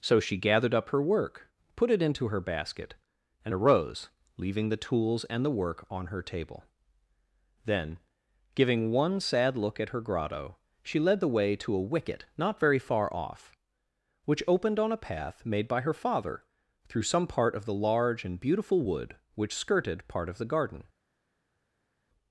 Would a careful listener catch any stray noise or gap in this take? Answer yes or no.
no